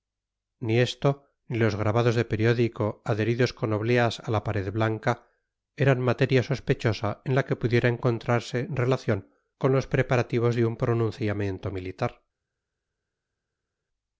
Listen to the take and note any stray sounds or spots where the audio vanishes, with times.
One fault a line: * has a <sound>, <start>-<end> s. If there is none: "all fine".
all fine